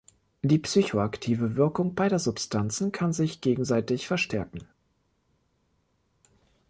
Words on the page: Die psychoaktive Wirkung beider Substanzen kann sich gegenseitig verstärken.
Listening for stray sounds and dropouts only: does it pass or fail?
pass